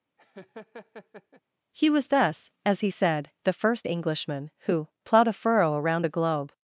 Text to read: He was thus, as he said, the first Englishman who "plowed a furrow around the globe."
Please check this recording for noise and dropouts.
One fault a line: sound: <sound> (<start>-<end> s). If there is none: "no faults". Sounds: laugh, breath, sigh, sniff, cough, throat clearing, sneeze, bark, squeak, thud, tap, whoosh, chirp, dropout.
sound: laugh (0.2-1.4 s)